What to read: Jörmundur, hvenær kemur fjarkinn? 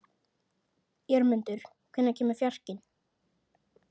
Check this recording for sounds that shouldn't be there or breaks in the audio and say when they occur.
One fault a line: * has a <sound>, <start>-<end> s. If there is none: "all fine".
all fine